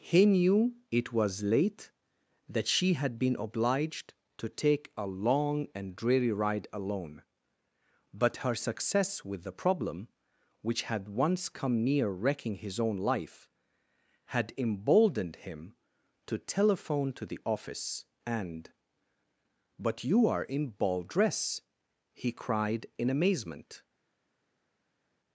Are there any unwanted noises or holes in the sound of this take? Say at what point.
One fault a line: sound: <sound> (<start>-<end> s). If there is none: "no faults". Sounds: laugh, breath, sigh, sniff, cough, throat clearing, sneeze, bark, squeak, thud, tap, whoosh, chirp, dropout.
no faults